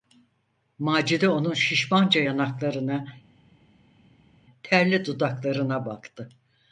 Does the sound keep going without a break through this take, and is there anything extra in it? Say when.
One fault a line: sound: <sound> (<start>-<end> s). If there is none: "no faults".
no faults